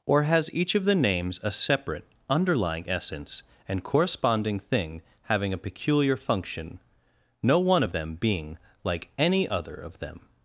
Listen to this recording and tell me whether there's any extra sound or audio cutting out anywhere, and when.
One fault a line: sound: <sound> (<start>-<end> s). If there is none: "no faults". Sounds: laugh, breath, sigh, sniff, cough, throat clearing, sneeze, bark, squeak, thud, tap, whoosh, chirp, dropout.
no faults